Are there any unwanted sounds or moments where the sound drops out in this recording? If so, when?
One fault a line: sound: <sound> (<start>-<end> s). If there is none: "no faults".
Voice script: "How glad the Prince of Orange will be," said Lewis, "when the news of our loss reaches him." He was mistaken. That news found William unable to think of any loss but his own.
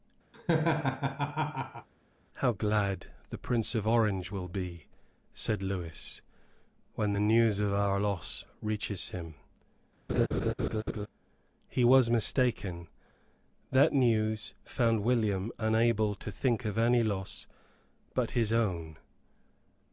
sound: laugh (0.3-1.9 s)
sound: laugh (10.1-11.1 s)